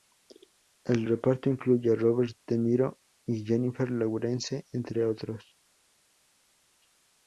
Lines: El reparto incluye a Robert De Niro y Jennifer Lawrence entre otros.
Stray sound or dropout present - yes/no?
no